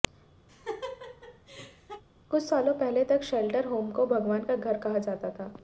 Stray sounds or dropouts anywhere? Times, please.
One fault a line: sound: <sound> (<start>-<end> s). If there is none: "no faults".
sound: laugh (0.5-2.0 s)